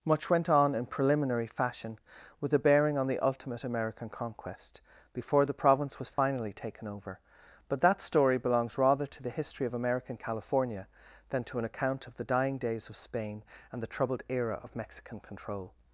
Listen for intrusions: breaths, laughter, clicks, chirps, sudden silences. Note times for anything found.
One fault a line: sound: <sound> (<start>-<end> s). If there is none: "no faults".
sound: dropout (6.1-6.2 s)